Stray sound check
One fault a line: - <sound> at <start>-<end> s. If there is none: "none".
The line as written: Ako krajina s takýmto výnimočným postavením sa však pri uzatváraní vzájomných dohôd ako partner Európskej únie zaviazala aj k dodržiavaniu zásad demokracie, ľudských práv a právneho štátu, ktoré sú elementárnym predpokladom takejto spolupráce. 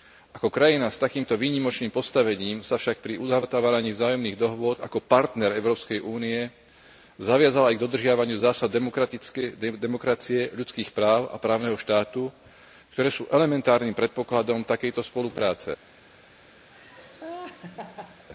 - laugh at 16.7-18.3 s